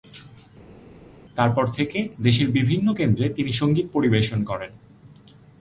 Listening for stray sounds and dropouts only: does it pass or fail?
pass